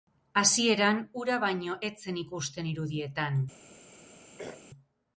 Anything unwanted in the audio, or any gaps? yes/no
yes